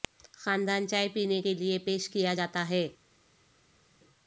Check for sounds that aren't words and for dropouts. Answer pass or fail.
pass